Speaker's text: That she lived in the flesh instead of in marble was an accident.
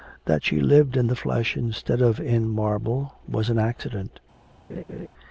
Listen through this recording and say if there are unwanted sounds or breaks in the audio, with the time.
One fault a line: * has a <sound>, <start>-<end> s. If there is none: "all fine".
* has a laugh, 4.7-5.1 s